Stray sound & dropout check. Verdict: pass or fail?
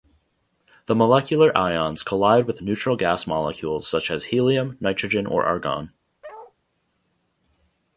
fail